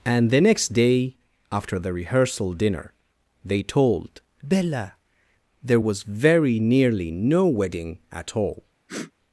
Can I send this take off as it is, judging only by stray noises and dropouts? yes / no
no